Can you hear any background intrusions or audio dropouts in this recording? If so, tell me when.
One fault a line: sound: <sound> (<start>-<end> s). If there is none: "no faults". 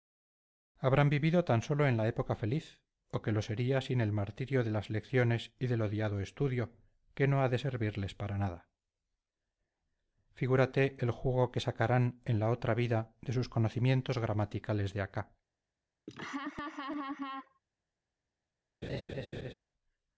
sound: laugh (16.1-17.6 s)
sound: laugh (18.8-19.5 s)